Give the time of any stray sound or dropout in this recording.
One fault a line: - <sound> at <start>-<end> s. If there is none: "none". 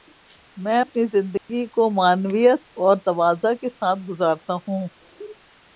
- dropout at 1.4-1.5 s